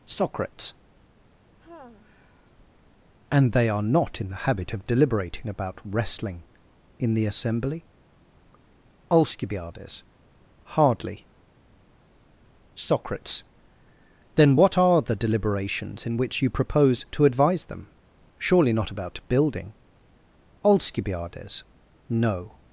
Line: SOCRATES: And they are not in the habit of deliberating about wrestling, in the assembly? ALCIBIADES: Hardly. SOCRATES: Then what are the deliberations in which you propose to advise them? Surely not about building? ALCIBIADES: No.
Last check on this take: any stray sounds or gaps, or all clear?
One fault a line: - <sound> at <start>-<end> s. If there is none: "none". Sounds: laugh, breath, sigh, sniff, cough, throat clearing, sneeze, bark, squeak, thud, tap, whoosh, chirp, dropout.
- sigh at 1.6-2.6 s